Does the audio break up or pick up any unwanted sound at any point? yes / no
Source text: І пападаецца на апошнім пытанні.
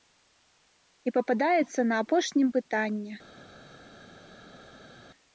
no